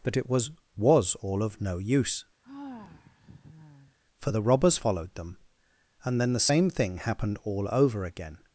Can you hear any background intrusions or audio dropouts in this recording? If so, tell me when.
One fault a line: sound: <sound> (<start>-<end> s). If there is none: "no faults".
sound: sigh (2.4-4.0 s)